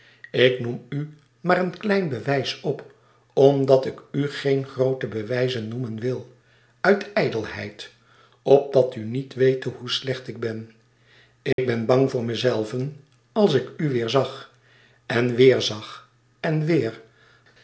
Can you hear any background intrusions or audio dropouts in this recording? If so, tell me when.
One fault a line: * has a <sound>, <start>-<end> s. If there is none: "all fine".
* has a dropout, 11.5-11.6 s